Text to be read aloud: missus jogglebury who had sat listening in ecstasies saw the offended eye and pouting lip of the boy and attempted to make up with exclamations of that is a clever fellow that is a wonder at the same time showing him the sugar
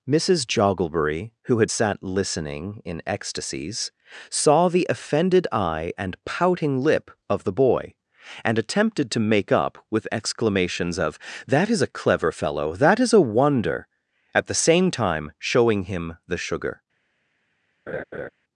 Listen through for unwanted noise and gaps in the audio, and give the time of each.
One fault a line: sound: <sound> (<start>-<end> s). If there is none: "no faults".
sound: laugh (17.9-18.3 s)